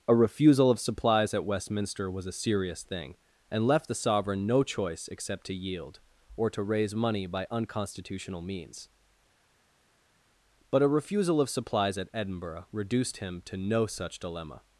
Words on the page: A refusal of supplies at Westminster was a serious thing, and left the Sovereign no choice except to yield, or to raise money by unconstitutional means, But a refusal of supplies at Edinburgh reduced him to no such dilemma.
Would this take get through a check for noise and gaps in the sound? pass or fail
pass